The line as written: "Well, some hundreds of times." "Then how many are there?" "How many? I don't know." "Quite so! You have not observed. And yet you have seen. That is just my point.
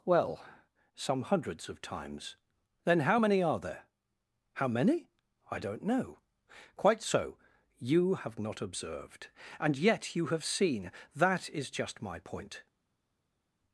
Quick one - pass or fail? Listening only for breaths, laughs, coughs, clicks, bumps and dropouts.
pass